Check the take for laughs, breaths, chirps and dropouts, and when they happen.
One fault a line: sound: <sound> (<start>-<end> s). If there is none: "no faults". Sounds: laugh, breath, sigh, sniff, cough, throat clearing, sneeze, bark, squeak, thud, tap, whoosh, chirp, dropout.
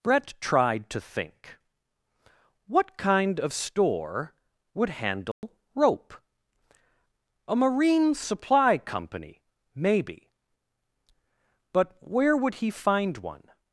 sound: dropout (5.3-5.4 s)